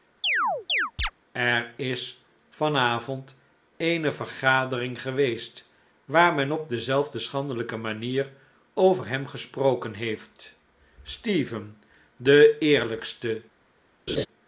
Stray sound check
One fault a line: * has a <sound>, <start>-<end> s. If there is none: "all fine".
* has a chirp, 0.2-1.1 s
* has a laugh, 14.1-14.3 s